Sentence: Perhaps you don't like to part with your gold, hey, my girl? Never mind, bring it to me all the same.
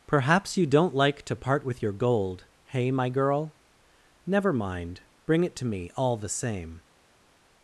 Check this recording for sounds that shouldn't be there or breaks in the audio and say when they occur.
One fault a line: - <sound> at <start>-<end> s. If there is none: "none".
none